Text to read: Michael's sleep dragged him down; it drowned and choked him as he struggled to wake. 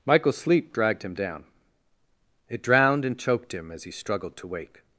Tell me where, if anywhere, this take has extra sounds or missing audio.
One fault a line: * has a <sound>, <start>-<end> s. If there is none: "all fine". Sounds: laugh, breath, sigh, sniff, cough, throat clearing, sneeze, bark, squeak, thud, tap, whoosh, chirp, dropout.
all fine